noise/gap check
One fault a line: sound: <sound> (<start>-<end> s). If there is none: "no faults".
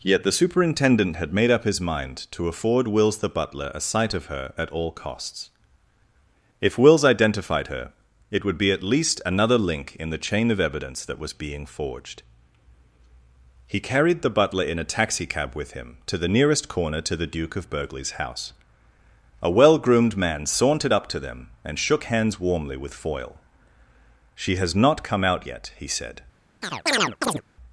sound: chirp (26.6-27.4 s)